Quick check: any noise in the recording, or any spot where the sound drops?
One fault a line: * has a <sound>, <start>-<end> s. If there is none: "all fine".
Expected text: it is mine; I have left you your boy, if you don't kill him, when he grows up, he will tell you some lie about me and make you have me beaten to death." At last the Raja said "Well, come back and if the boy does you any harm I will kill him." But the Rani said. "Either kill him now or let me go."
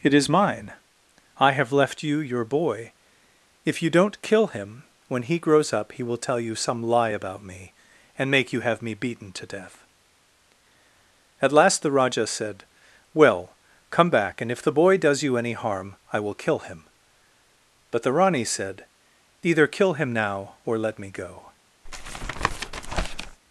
* has a tap, 21.9-23.4 s